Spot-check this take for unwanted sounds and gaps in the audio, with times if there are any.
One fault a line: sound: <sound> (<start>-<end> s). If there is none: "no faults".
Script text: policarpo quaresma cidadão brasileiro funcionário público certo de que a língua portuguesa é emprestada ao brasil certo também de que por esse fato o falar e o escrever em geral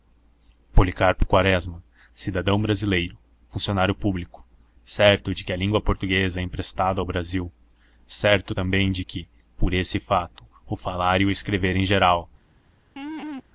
sound: laugh (13.0-13.4 s)